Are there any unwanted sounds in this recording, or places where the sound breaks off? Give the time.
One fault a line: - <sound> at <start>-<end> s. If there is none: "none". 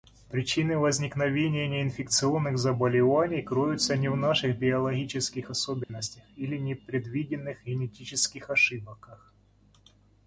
- dropout at 5.8-5.9 s